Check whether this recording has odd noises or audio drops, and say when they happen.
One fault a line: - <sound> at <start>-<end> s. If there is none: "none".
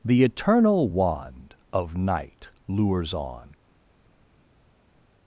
none